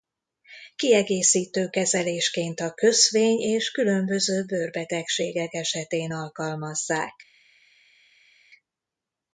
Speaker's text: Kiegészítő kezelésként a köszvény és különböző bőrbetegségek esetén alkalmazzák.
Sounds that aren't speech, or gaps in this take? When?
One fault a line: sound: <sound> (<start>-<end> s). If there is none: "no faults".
no faults